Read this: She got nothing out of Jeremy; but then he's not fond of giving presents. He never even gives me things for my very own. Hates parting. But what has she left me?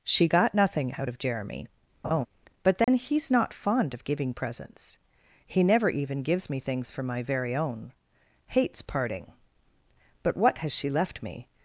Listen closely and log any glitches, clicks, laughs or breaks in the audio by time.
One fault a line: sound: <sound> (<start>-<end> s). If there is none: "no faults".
sound: laugh (2.0-2.3 s)
sound: dropout (2.8-2.9 s)